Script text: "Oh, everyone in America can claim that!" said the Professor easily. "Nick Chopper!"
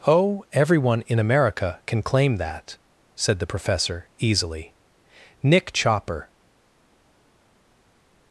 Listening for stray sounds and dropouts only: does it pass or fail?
pass